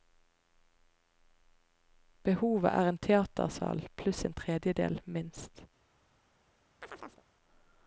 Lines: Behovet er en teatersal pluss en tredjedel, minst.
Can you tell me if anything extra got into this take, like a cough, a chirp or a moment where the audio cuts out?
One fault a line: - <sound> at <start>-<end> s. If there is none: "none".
- chirp at 6.8-7.2 s